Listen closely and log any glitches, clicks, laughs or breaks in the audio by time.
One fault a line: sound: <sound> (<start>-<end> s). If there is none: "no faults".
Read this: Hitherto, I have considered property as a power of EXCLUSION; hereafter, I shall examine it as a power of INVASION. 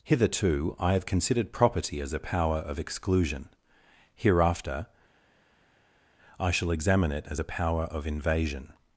no faults